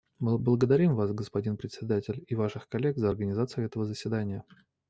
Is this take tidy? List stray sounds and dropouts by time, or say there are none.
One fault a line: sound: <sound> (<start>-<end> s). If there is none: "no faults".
no faults